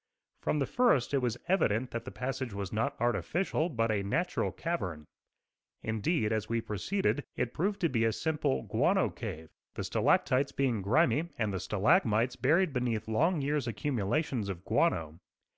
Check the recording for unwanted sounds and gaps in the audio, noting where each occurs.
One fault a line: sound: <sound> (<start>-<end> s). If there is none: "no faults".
no faults